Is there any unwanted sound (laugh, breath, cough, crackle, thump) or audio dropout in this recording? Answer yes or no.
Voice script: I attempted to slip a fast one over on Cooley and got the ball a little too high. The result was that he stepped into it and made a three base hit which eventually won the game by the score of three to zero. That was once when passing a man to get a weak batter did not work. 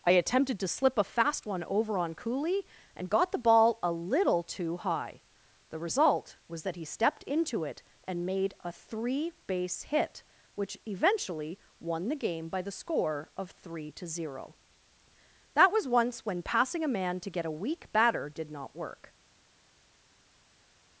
no